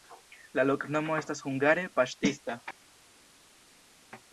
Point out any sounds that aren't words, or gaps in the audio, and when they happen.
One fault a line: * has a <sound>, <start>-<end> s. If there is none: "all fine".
all fine